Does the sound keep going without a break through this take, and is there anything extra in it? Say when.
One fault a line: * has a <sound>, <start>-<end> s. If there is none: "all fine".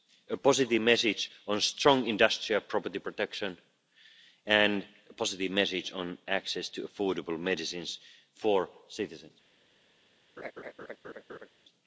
* has a laugh, 10.4-11.5 s